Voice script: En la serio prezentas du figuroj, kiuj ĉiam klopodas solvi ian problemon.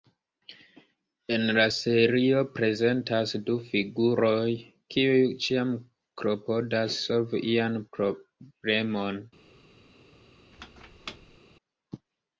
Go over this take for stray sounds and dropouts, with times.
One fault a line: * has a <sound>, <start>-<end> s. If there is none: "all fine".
* has a squeak, 10.5-11.4 s